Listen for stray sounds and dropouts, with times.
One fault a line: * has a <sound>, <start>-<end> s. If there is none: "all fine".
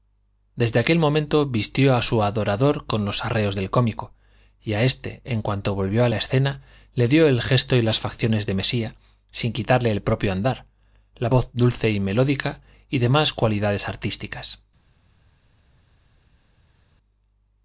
all fine